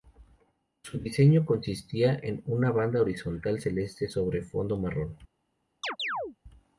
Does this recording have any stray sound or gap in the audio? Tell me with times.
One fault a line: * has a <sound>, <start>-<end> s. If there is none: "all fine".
* has a chirp, 5.8-6.4 s